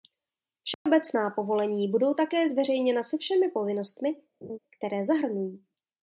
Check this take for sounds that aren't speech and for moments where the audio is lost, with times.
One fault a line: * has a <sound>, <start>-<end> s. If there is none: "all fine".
* has a dropout, 0.7-0.9 s
* has a laugh, 4.4-4.6 s